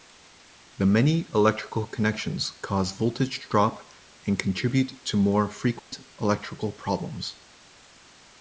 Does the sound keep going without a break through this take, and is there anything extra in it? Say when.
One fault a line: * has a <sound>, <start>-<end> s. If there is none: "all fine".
* has a dropout, 5.8-5.9 s